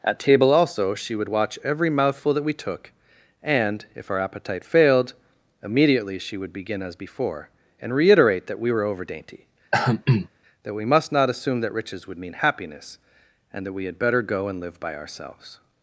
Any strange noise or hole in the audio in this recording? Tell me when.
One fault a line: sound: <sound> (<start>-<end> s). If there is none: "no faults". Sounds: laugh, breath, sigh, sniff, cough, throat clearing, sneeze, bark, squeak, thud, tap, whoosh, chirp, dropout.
sound: throat clearing (9.7-10.3 s)